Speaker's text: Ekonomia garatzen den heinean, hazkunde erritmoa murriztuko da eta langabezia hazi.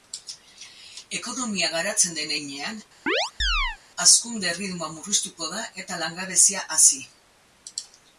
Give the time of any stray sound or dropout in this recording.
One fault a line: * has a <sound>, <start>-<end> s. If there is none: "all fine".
* has a chirp, 3.1-3.8 s